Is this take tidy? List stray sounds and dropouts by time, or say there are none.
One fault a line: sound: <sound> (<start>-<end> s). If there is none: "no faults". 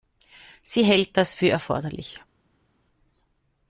no faults